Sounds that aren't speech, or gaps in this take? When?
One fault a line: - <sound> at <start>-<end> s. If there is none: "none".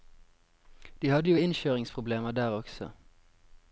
none